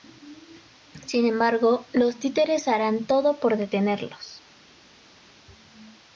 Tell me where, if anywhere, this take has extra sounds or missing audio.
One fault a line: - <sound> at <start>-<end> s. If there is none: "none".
none